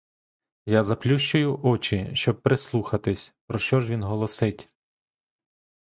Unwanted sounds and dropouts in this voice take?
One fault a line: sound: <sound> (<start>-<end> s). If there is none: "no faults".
no faults